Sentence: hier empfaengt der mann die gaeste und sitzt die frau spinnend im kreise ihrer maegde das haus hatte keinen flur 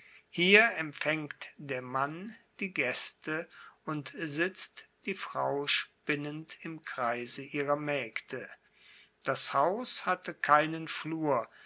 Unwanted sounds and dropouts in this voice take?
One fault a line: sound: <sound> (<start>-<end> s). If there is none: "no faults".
no faults